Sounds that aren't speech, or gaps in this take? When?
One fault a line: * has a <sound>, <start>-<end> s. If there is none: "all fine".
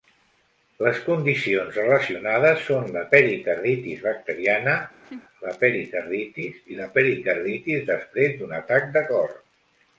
* has a laugh, 5.0-5.2 s